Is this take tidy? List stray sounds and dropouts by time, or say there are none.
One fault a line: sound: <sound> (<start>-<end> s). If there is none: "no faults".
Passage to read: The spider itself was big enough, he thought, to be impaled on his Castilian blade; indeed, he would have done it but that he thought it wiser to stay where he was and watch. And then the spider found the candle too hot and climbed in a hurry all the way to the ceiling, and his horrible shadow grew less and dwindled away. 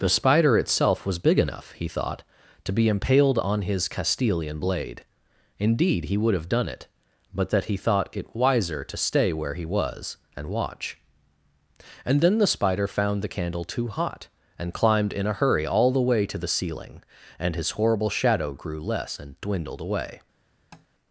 sound: tap (20.7-20.9 s)